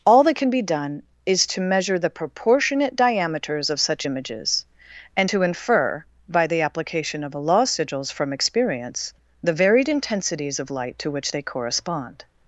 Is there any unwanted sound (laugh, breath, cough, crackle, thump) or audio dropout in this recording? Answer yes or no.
no